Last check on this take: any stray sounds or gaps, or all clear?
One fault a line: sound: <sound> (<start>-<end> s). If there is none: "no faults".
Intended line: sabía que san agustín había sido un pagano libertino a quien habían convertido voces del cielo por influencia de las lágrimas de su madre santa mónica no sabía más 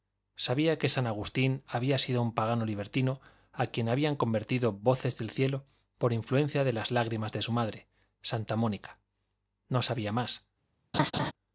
sound: laugh (10.9-11.3 s)